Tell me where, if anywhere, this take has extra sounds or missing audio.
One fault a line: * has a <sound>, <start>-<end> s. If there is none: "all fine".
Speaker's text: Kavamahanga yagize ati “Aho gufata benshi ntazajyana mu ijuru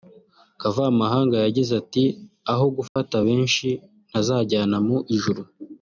* has a dropout, 2.9-3.0 s